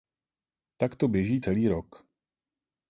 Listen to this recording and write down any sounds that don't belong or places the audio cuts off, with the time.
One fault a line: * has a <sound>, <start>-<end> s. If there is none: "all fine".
all fine